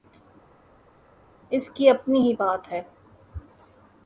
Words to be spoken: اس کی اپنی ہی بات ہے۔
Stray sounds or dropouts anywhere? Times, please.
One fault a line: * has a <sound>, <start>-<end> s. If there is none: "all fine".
all fine